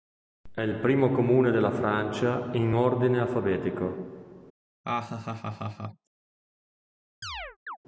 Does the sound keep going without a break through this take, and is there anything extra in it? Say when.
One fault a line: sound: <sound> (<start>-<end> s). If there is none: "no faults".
sound: laugh (4.8-6.1 s)
sound: chirp (7.2-7.8 s)